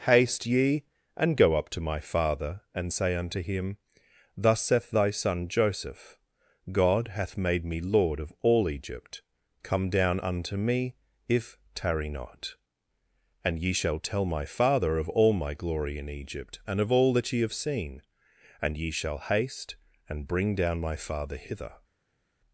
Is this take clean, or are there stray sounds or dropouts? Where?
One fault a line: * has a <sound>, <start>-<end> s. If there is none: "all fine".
all fine